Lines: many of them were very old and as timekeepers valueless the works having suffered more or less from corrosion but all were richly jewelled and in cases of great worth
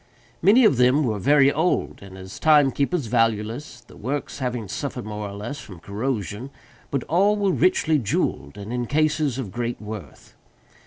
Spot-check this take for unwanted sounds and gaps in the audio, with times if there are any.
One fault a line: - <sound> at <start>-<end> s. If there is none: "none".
none